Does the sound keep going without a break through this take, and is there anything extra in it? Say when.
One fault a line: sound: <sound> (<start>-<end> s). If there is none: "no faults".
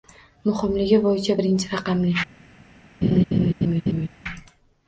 sound: laugh (3.0-4.1 s)